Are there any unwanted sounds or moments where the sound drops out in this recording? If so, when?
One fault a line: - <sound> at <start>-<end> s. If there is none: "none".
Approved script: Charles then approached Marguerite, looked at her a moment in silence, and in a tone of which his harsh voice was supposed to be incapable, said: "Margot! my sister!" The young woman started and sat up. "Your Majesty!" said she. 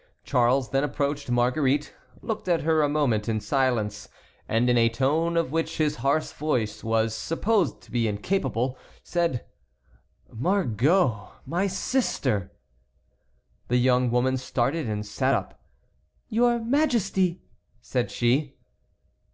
none